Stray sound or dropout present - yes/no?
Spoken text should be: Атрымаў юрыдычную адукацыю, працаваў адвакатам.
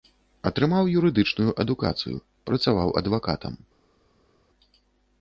no